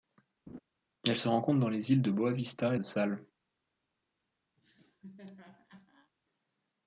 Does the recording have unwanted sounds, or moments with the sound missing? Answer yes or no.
yes